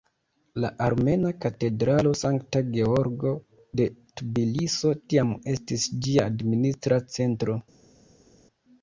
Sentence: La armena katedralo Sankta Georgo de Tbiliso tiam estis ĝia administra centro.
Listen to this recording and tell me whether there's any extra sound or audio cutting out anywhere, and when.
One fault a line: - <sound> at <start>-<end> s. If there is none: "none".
none